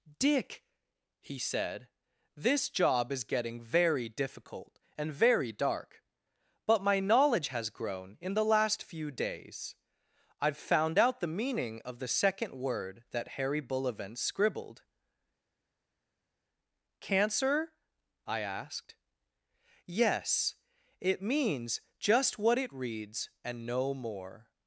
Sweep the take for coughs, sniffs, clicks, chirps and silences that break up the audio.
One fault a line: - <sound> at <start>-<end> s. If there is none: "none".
none